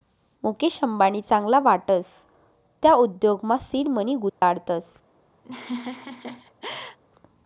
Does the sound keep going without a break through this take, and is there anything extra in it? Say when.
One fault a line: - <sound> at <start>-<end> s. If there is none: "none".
- dropout at 4.3-4.4 s
- laugh at 5.4-7.0 s